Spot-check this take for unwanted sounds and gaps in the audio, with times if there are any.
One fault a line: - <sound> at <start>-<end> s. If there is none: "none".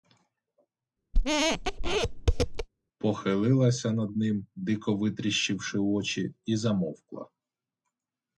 - squeak at 1.1-2.7 s